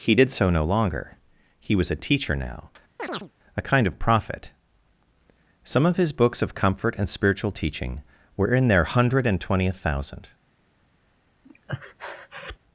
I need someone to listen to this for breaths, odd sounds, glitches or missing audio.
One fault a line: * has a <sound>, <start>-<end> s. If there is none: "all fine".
* has a chirp, 3.0-3.3 s
* has a breath, 11.4-12.6 s